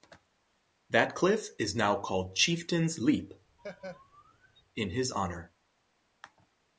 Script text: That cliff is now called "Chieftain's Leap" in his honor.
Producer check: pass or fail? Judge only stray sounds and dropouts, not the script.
fail